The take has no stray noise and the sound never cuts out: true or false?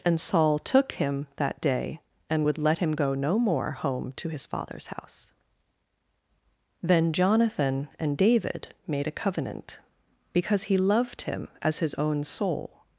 true